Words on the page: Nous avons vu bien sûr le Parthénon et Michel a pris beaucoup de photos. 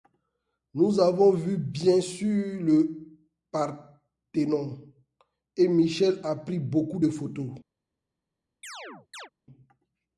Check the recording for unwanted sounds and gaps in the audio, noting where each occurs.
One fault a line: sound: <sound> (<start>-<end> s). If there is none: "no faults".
sound: chirp (8.6-9.3 s)